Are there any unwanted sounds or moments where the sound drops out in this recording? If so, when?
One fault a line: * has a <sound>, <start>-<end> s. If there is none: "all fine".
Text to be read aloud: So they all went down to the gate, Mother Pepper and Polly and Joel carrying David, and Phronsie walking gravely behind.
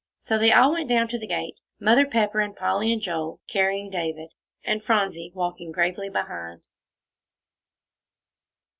all fine